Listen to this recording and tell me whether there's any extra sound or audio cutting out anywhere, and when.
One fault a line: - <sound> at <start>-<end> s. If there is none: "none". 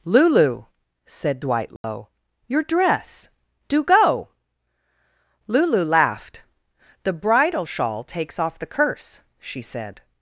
- dropout at 1.8-1.8 s